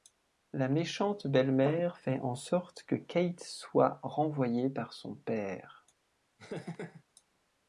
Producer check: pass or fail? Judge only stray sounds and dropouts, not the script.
fail